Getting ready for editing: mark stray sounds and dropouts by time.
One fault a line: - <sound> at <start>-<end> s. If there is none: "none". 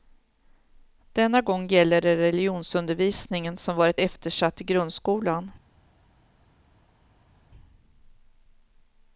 none